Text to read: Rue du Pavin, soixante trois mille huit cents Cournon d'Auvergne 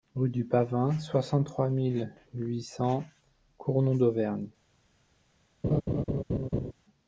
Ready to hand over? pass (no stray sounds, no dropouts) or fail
fail